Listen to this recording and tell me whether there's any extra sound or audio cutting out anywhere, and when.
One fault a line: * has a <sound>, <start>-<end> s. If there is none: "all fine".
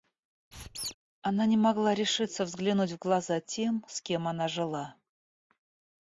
* has a squeak, 0.5-0.9 s